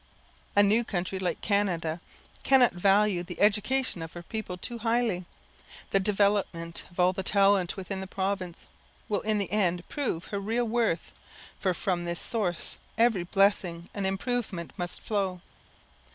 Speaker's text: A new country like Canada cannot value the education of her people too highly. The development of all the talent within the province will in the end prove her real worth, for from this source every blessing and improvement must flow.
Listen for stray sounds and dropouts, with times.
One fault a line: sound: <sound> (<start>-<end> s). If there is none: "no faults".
no faults